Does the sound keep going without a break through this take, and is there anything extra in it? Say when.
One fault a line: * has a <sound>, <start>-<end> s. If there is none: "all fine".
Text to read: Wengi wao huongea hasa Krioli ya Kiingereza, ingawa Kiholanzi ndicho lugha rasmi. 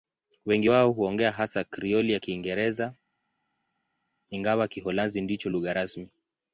all fine